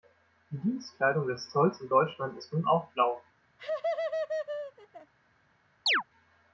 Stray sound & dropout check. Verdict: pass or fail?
fail